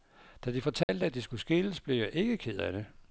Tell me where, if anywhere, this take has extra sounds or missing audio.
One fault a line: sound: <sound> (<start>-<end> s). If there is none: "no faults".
sound: dropout (0.8-0.9 s)